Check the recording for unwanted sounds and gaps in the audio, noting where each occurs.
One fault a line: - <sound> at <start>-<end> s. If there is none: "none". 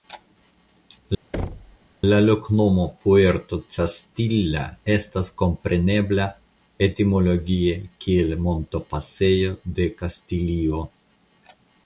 - thud at 1.3-1.8 s